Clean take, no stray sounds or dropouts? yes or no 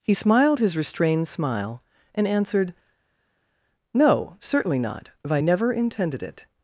yes